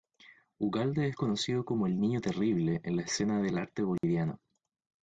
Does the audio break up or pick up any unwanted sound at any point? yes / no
yes